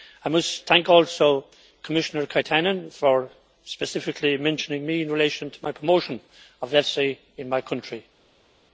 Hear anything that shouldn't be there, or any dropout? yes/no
no